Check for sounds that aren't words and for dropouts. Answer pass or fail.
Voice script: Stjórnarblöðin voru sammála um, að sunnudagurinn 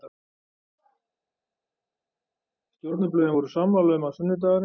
pass